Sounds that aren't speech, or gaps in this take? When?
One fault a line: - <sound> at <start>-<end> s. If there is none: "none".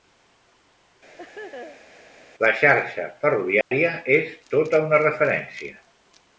- laugh at 1.2-2.0 s
- dropout at 3.6-3.7 s